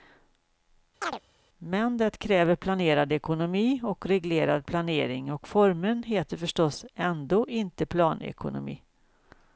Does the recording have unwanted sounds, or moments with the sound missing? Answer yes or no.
yes